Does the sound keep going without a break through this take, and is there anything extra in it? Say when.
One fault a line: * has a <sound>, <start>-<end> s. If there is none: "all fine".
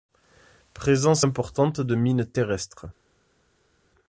all fine